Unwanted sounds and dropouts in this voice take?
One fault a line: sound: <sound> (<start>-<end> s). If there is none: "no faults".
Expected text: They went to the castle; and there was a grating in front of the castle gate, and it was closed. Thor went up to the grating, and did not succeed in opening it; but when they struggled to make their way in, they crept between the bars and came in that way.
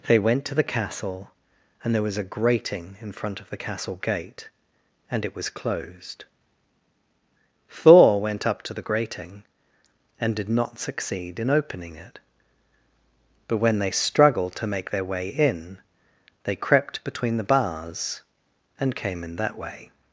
no faults